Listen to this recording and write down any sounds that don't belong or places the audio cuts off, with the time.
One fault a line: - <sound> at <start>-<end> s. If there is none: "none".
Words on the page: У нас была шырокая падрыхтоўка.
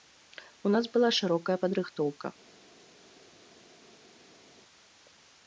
none